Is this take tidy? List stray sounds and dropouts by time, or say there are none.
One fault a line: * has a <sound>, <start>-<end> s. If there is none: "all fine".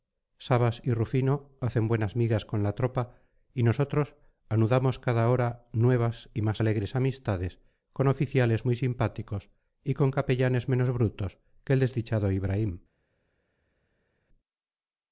all fine